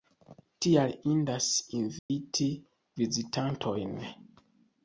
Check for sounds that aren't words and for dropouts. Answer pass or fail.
fail